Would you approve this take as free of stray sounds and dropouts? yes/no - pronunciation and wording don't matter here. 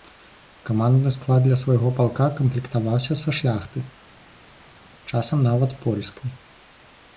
yes